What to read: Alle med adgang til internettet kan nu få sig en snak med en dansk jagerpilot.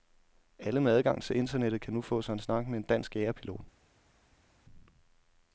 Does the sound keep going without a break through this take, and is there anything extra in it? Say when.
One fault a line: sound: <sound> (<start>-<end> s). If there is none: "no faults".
no faults